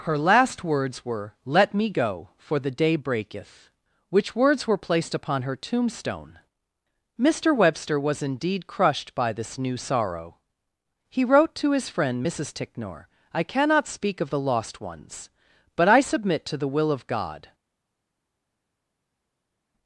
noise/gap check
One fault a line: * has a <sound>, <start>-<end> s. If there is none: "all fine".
all fine